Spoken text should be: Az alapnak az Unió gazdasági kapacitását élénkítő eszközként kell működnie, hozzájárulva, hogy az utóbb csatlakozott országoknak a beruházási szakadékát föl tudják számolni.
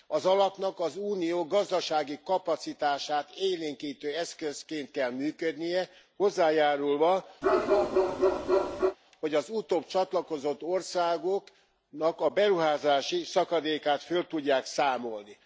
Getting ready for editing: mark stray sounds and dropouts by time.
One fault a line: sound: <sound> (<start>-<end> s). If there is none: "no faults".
sound: bark (7.4-9.0 s)